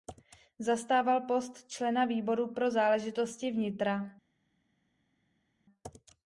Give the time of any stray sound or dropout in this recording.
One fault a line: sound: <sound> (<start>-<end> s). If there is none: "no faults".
no faults